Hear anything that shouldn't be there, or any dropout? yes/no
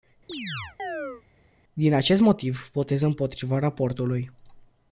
yes